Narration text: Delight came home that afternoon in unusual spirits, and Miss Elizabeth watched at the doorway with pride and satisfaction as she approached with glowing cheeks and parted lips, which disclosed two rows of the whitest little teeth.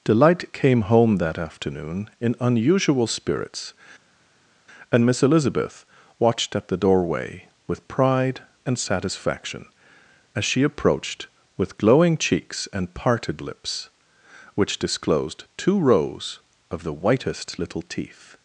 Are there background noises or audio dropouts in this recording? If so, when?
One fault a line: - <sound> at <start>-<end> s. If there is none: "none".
none